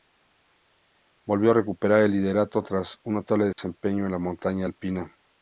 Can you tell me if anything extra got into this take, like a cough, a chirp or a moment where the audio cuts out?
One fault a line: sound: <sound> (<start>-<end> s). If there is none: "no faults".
sound: dropout (3.5-3.6 s)